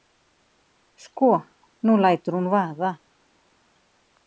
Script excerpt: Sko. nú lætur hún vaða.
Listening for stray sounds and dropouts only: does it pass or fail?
pass